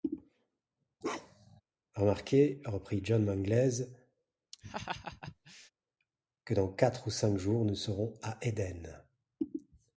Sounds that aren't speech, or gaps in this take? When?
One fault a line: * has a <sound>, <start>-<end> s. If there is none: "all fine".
* has a bark, 1.0-1.6 s
* has a laugh, 4.5-5.7 s